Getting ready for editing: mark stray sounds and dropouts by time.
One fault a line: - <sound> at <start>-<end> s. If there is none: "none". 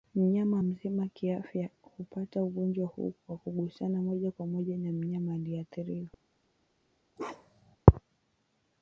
- bark at 7.2-7.8 s